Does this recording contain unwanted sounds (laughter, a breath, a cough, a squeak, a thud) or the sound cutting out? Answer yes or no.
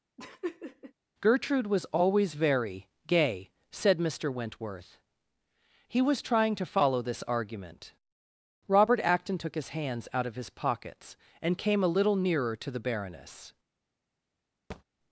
yes